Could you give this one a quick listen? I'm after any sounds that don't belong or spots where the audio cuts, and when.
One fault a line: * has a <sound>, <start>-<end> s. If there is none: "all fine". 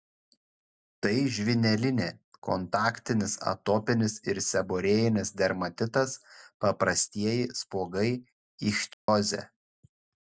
* has a dropout, 8.9-9.1 s